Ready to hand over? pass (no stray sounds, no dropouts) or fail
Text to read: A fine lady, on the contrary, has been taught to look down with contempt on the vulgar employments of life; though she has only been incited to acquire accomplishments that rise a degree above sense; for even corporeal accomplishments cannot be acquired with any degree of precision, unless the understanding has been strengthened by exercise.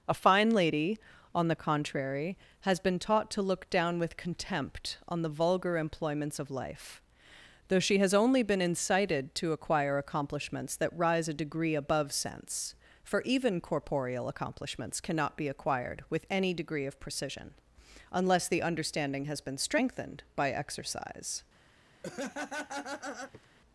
fail